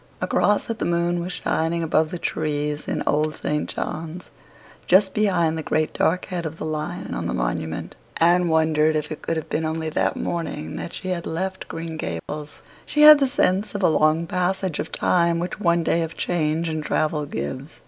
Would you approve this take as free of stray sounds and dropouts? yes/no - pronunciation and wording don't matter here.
no